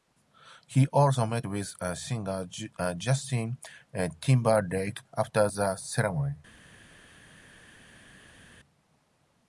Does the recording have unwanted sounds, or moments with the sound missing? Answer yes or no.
no